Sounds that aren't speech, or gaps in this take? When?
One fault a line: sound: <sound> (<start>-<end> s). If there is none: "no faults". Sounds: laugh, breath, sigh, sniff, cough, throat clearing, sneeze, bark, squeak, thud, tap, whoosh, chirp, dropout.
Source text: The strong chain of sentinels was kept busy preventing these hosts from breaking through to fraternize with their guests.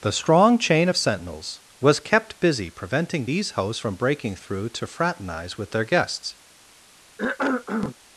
sound: cough (7.2-8.0 s)